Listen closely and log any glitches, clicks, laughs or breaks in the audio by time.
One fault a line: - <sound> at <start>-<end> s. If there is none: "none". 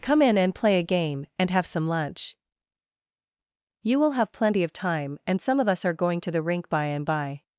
none